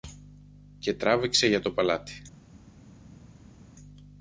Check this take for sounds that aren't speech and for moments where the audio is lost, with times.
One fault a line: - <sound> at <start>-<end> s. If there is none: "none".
none